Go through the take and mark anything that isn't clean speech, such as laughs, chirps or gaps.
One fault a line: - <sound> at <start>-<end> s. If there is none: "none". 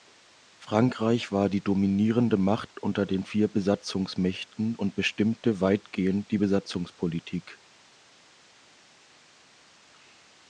none